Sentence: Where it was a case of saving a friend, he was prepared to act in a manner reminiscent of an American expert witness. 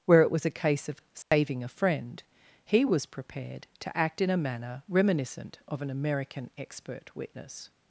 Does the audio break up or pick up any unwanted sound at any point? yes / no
yes